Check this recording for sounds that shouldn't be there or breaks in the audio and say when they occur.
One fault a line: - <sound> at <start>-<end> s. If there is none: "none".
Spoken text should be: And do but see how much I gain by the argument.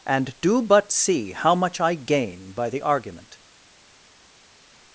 none